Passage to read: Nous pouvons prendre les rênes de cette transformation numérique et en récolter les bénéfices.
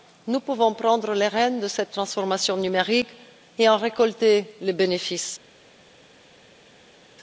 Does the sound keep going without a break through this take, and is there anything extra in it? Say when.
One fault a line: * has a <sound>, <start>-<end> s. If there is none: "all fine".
all fine